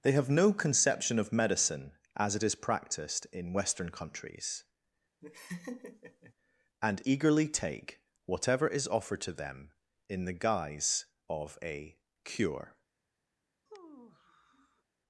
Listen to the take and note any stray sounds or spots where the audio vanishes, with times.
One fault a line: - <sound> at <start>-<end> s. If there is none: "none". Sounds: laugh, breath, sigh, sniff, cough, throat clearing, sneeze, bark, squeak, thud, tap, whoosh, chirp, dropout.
- laugh at 5.2-6.3 s
- sigh at 13.7-14.8 s